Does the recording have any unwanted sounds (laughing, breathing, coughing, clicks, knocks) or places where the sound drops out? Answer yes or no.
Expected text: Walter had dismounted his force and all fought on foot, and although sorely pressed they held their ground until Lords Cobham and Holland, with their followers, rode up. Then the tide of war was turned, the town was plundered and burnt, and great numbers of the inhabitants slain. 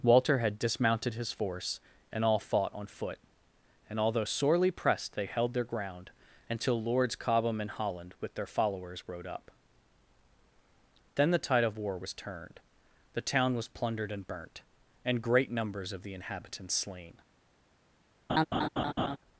yes